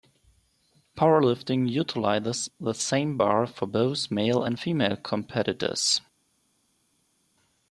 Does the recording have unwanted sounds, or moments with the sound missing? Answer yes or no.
no